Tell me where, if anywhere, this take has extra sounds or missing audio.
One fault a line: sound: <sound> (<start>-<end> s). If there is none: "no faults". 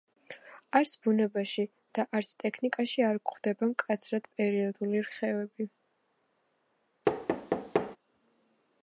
sound: thud (7.0-8.0 s)